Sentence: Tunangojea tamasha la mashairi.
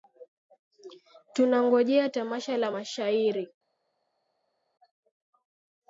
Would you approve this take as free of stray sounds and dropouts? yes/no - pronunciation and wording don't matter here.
yes